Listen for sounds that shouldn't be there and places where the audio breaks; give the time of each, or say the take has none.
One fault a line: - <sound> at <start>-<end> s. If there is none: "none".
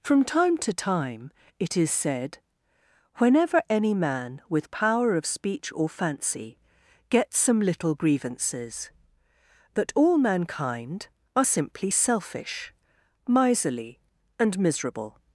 none